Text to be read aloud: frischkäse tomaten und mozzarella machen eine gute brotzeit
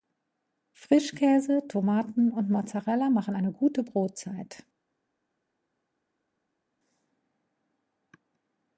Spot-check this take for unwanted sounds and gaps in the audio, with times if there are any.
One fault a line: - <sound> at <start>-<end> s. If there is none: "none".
none